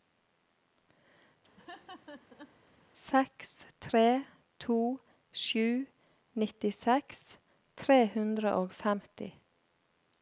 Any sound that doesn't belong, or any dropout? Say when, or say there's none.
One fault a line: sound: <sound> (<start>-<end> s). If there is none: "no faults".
sound: laugh (1.6-2.6 s)